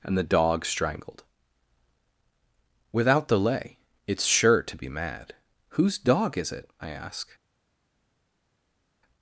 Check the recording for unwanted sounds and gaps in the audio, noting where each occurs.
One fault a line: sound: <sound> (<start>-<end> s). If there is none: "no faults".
no faults